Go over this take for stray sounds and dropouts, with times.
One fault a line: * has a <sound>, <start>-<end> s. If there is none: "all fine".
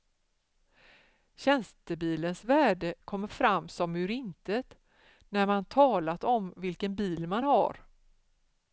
all fine